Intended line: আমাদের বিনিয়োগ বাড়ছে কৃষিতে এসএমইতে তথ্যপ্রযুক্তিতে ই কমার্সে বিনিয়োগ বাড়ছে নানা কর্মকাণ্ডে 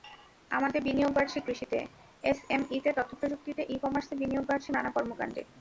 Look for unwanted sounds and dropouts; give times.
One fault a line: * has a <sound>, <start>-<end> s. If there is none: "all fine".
all fine